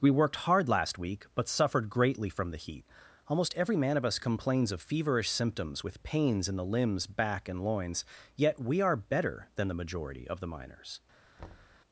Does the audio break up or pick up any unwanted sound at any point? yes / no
yes